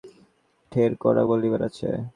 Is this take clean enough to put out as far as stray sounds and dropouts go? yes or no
yes